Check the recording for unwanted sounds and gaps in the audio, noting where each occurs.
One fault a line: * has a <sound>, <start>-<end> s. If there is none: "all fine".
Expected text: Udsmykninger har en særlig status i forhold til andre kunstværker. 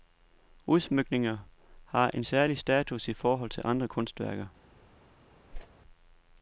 * has a whoosh, 5.5-5.7 s